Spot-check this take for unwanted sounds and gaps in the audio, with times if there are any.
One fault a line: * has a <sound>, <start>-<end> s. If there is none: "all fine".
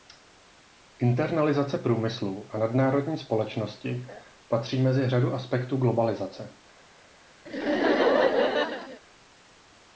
* has a laugh, 7.5-9.0 s